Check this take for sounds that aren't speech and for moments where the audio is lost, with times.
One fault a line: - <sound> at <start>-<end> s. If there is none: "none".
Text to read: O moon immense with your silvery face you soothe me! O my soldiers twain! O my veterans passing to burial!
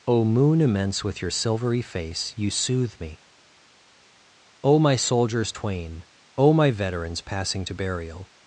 none